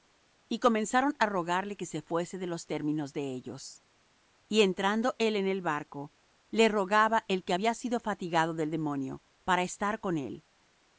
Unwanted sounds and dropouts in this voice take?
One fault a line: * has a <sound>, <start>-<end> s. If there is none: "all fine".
all fine